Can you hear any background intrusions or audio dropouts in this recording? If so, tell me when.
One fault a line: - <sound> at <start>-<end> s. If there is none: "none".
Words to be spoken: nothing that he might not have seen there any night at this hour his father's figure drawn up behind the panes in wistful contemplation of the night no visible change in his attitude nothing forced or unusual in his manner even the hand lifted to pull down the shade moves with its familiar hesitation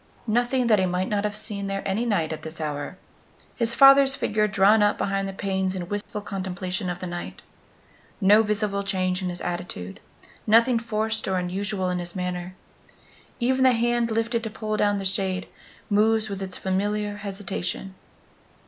- dropout at 6.0-6.1 s